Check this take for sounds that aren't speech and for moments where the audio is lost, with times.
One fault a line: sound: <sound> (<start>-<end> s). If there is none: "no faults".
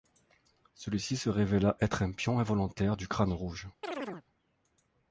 sound: chirp (3.8-4.3 s)